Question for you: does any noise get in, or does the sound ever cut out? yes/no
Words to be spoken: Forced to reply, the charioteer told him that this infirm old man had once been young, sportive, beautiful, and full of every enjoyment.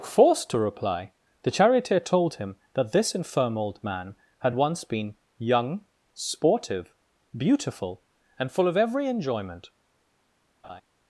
yes